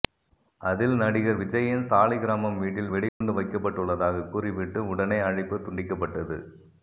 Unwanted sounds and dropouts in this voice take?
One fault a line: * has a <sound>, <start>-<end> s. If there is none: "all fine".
* has a dropout, 3.1-3.2 s